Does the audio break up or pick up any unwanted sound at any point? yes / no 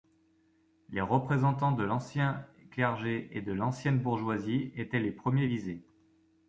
no